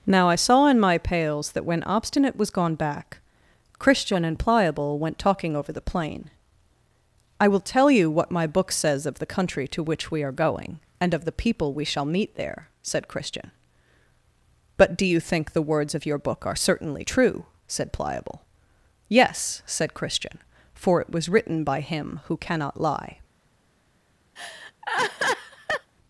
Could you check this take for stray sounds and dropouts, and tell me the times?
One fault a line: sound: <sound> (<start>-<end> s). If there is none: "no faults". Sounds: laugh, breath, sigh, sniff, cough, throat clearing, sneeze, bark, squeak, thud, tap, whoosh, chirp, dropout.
sound: laugh (24.4-25.9 s)